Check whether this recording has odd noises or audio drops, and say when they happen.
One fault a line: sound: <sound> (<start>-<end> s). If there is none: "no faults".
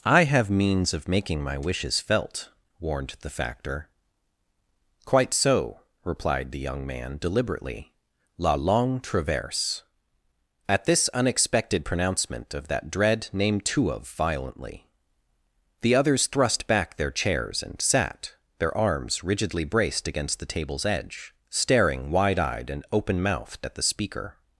no faults